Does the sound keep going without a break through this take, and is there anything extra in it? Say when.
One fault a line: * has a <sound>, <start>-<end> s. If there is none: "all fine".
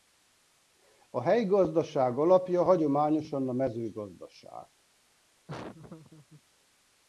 * has a laugh, 5.5-6.4 s